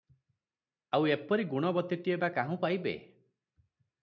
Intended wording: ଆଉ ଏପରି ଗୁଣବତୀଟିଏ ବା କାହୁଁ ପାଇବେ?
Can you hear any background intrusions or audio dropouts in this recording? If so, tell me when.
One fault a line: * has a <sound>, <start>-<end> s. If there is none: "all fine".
all fine